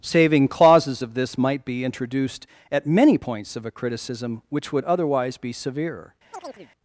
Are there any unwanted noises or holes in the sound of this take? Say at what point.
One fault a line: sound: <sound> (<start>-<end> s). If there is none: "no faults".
sound: chirp (6.3-6.7 s)